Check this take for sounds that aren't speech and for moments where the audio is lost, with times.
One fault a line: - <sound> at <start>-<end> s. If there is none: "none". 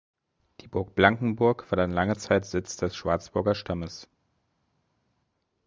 none